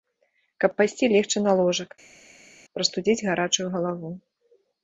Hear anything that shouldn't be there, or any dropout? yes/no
no